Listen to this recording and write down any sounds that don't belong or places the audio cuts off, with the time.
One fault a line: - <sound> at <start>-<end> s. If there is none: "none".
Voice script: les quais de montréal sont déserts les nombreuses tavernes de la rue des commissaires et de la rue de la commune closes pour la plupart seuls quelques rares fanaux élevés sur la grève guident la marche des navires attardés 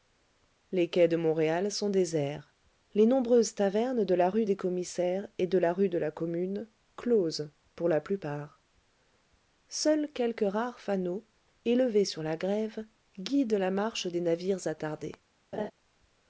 - laugh at 15.5-15.7 s